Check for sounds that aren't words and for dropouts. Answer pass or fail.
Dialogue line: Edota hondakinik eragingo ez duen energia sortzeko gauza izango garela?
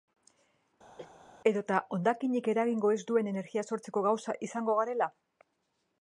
fail